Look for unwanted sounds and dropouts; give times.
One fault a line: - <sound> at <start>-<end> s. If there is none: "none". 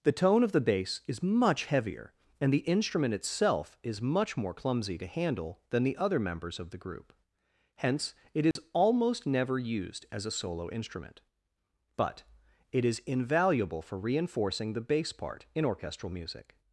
- dropout at 8.5-8.6 s